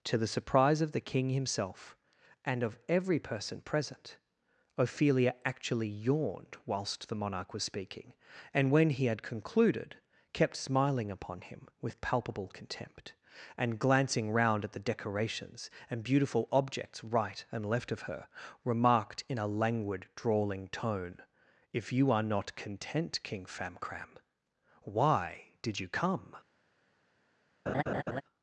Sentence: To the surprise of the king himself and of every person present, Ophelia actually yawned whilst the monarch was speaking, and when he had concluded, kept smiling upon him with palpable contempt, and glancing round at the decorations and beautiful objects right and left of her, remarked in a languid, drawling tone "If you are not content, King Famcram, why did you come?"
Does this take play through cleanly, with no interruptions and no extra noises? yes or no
no